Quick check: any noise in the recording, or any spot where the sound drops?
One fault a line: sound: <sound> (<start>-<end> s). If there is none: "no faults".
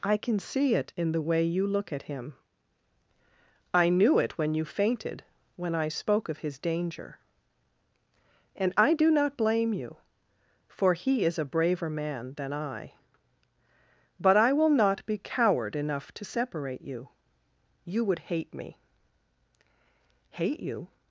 no faults